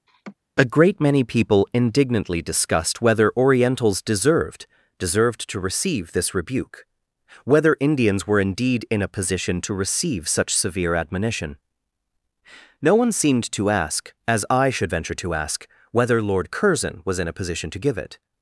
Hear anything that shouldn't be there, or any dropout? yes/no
yes